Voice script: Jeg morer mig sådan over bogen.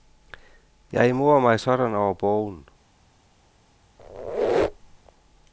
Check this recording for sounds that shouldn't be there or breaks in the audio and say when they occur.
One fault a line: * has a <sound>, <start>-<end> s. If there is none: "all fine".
* has a squeak, 4.0-5.1 s